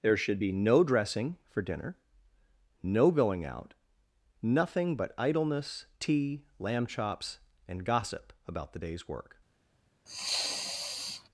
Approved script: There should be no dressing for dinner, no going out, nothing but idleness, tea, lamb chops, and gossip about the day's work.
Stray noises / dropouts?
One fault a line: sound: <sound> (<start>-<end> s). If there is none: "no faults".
sound: sneeze (10.1-11.3 s)